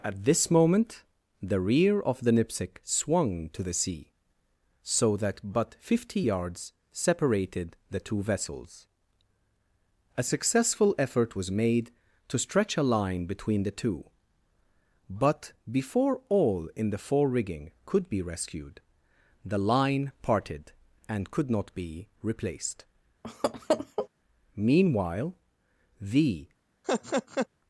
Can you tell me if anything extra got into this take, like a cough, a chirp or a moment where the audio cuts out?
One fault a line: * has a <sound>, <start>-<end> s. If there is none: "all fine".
* has a laugh, 23.2-24.1 s
* has a laugh, 26.8-27.5 s